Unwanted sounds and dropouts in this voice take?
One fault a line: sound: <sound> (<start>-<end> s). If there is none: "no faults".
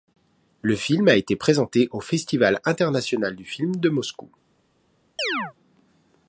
sound: chirp (5.2-5.5 s)